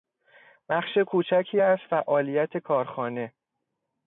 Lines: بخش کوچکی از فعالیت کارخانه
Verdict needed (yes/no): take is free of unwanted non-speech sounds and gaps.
yes